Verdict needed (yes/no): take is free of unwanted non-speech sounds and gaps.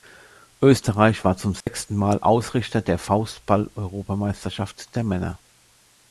no